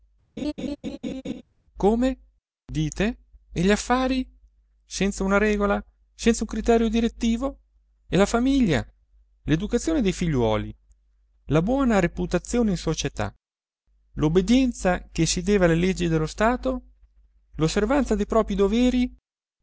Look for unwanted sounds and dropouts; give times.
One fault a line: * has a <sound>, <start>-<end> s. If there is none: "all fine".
* has a laugh, 0.4-1.4 s